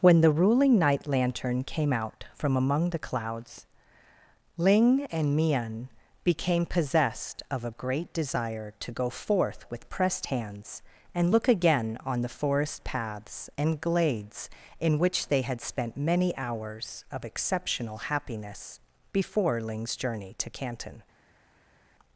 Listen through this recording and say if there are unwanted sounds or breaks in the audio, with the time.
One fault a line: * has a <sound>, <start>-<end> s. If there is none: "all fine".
all fine